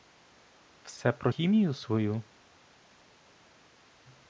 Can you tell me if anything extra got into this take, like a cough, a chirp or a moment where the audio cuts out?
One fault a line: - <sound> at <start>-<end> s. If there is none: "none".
none